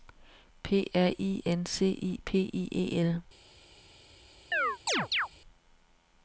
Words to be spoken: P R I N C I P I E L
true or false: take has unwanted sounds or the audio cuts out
true